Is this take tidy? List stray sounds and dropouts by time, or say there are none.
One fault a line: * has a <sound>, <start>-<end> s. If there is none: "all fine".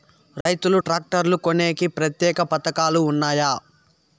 * has a dropout, 0.4-0.5 s